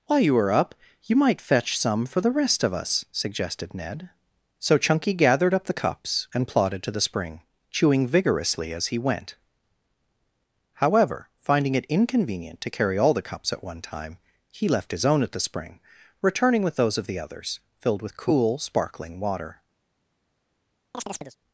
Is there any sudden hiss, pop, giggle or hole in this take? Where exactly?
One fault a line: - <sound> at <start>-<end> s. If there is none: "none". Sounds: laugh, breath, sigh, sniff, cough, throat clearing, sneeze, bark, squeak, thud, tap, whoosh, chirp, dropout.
- chirp at 20.9-21.4 s